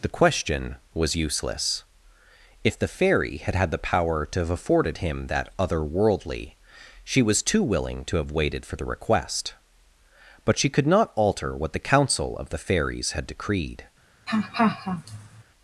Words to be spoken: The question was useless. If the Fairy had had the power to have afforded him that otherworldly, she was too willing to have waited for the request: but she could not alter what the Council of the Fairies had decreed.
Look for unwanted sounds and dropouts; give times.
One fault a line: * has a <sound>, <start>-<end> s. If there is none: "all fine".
* has a laugh, 14.3-15.4 s